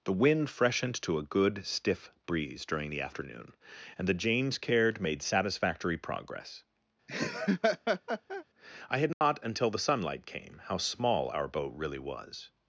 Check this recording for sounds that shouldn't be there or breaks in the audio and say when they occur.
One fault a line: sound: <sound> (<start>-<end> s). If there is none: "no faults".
sound: laugh (7.1-8.4 s)
sound: dropout (9.1-9.2 s)